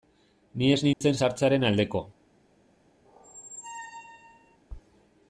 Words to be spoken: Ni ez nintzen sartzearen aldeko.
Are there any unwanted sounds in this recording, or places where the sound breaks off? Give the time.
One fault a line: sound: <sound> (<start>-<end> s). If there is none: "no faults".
sound: dropout (0.9-1.0 s)
sound: squeak (3.0-4.6 s)